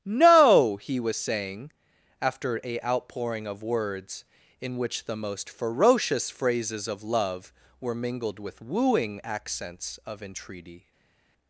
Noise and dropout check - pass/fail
pass